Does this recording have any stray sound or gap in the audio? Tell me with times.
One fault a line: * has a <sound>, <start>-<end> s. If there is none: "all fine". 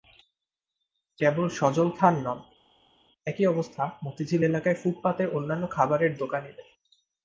all fine